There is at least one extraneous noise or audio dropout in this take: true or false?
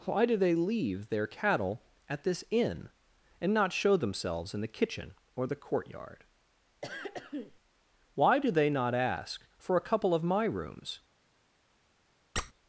true